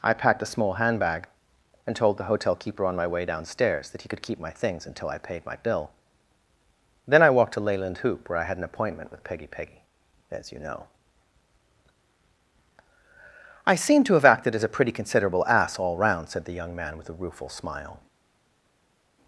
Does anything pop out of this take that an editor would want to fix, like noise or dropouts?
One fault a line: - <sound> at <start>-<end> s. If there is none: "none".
none